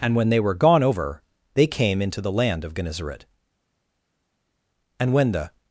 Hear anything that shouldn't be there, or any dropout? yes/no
no